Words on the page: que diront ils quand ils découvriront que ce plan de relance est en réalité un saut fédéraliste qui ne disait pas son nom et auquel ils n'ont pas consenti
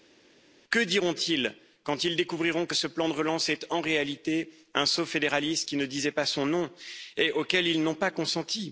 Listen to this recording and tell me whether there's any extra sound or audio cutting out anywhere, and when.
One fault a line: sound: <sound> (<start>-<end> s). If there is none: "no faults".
no faults